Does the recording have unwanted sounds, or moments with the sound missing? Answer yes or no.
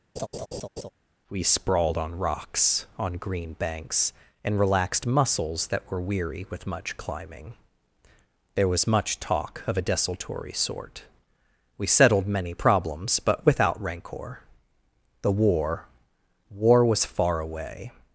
yes